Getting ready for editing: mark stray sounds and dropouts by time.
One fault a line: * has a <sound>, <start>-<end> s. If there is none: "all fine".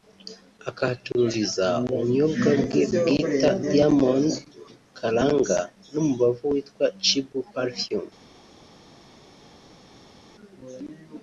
all fine